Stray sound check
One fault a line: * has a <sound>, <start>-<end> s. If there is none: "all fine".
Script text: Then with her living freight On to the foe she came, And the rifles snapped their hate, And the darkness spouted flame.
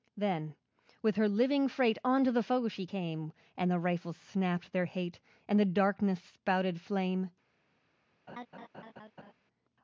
* has a laugh, 8.3-9.3 s